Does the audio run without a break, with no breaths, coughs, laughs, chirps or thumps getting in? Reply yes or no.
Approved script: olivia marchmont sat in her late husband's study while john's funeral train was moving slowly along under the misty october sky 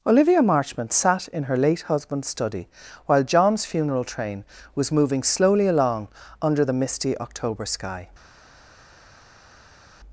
yes